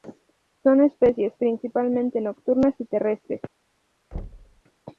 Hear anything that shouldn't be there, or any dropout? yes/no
yes